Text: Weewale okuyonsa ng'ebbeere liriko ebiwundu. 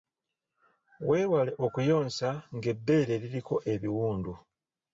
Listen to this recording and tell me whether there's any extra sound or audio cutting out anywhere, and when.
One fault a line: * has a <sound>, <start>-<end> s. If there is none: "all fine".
all fine